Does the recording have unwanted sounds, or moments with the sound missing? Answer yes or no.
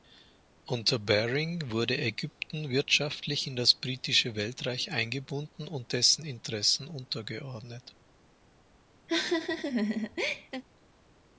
yes